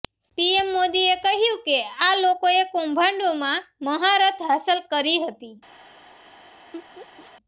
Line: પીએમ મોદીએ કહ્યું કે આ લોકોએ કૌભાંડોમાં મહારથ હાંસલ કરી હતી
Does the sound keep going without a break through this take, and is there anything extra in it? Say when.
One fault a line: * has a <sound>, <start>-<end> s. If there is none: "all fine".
* has a laugh, 6.7-7.3 s